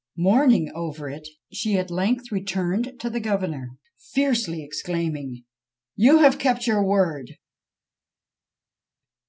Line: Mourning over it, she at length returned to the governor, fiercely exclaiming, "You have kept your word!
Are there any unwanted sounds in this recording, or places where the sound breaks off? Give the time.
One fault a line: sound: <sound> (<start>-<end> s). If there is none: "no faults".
no faults